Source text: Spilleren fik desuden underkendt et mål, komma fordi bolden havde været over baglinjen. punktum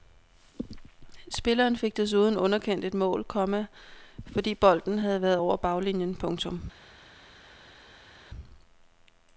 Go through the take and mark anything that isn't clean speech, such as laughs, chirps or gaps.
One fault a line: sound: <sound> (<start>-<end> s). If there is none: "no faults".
no faults